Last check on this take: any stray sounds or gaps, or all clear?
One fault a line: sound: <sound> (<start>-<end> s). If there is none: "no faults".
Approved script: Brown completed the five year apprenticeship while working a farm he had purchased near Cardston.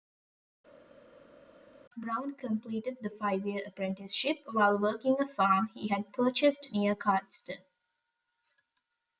no faults